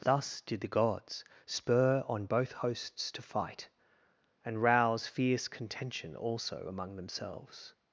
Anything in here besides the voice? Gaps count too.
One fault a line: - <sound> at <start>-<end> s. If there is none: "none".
none